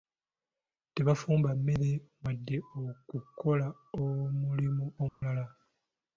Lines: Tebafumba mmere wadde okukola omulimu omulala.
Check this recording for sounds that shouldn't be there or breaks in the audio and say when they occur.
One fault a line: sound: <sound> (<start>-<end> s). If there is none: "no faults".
sound: dropout (5.1-5.2 s)